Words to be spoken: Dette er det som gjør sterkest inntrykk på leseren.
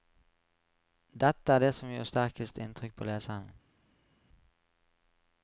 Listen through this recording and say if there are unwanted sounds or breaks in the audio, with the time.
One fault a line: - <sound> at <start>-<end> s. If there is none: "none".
none